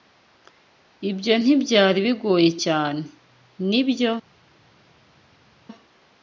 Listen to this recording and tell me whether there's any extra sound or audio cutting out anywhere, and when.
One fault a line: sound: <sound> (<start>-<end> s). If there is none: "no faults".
no faults